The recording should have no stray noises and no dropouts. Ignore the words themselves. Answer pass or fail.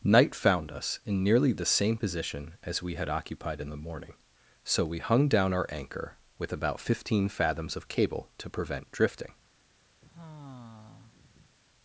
fail